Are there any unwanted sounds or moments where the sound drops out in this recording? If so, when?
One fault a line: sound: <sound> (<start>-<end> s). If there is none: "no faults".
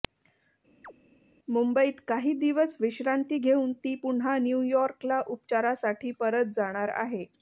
sound: chirp (0.8-0.9 s)